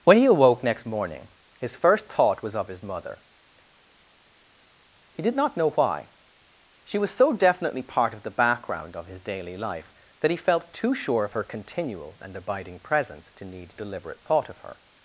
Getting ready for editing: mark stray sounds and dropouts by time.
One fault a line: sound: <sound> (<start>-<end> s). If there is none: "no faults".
no faults